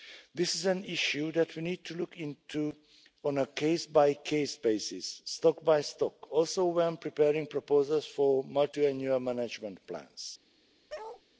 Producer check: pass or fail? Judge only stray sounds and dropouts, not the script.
fail